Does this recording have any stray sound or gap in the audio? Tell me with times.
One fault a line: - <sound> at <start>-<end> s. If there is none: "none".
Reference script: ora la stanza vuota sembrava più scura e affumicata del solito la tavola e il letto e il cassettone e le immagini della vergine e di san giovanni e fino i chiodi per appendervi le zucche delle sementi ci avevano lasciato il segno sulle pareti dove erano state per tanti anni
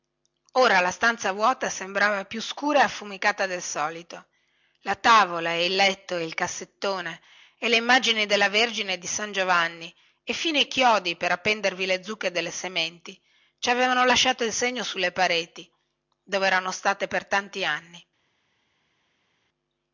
none